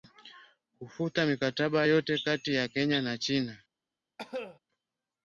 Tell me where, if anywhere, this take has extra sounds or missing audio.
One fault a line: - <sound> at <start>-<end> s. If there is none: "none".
- cough at 4.2-4.6 s